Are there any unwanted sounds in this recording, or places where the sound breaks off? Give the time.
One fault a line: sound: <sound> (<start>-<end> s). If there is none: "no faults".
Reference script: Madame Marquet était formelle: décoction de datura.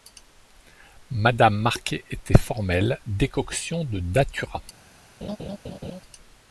sound: laugh (5.2-6.0 s)